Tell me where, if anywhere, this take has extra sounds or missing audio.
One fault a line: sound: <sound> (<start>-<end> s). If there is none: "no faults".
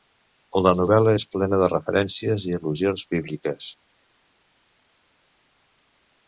no faults